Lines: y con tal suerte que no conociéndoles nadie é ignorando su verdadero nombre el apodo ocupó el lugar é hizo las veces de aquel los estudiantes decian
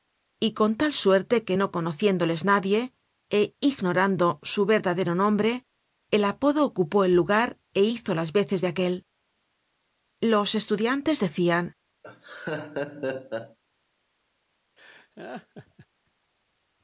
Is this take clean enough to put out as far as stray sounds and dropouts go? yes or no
no